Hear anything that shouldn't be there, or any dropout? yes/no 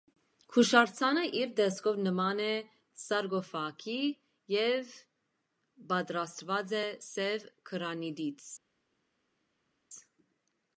no